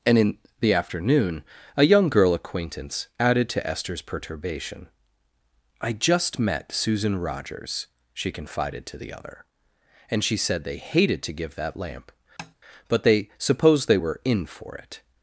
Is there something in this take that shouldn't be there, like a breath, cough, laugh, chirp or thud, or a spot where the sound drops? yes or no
yes